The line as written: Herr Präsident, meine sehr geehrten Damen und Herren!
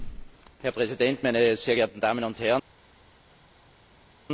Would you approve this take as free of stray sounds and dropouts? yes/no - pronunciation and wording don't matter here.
yes